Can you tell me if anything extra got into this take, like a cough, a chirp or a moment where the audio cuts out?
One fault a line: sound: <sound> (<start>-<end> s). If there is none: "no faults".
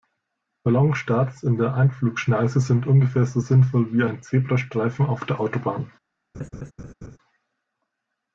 sound: laugh (6.3-7.2 s)